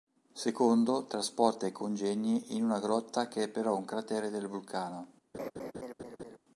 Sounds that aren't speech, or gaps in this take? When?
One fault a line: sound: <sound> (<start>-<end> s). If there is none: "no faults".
sound: laugh (5.3-6.4 s)